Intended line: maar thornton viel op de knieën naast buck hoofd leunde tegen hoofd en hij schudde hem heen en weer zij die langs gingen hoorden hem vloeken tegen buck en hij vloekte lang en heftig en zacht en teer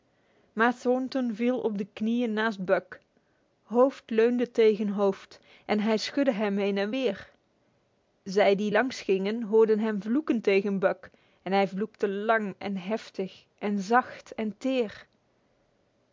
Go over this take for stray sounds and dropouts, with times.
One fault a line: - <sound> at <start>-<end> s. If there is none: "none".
none